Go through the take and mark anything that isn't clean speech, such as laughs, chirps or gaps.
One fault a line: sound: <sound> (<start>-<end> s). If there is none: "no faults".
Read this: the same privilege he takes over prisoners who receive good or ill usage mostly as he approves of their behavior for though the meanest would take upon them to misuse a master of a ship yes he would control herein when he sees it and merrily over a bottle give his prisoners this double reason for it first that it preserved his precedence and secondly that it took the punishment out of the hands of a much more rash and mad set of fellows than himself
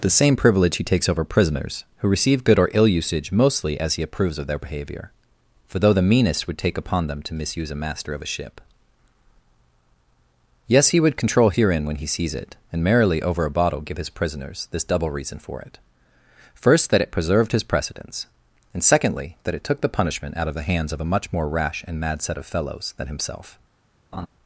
sound: laugh (24.1-24.3 s)